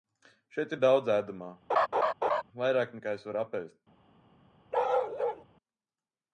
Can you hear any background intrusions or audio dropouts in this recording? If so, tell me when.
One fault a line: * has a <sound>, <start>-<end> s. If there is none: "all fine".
* has a laugh, 1.7-2.4 s
* has a bark, 4.7-5.4 s